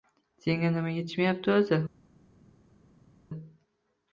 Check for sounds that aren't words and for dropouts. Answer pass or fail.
pass